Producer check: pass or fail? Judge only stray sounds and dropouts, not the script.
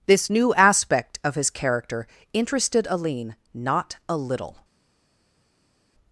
pass